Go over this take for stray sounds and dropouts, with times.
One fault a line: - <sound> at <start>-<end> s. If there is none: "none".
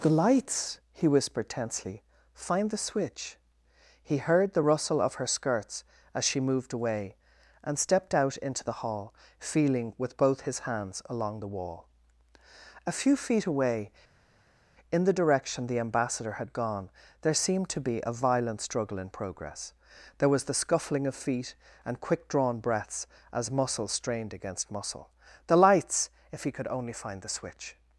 none